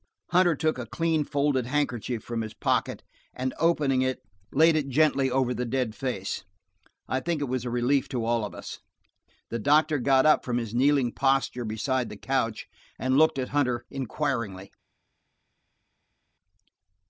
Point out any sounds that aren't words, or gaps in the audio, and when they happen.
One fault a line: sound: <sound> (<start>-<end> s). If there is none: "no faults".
no faults